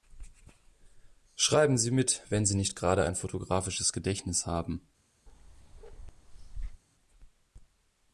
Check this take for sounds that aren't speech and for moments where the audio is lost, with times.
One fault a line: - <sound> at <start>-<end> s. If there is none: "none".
- bark at 5.3-6.8 s